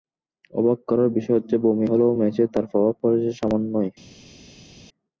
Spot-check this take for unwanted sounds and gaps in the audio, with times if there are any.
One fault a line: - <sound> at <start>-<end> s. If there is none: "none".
none